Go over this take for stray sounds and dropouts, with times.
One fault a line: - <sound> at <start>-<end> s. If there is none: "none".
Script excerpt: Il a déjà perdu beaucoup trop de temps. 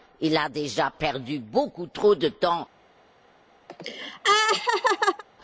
- laugh at 3.7-5.2 s